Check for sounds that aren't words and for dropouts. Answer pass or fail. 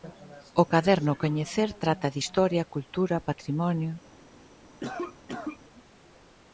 fail